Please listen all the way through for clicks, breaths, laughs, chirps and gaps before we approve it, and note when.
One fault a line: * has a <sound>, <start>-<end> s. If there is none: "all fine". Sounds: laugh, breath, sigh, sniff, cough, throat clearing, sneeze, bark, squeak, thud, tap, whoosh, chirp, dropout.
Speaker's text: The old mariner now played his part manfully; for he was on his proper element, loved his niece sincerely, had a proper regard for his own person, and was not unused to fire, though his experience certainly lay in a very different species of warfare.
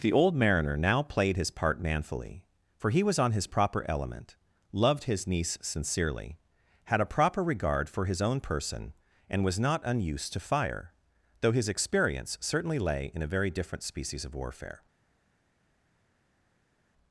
all fine